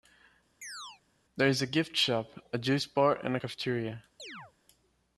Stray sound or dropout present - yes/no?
yes